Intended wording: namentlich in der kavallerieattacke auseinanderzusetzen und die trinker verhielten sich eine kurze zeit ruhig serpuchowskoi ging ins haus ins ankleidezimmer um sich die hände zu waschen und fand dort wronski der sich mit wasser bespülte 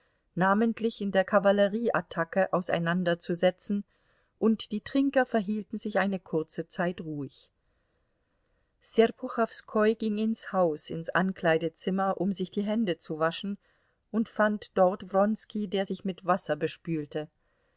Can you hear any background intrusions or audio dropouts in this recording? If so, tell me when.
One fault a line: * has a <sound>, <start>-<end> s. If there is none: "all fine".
all fine